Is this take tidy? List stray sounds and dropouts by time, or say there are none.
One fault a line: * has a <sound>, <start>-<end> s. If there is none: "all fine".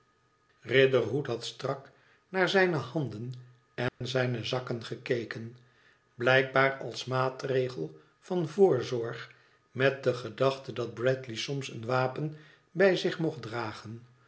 * has a dropout, 3.9-4.0 s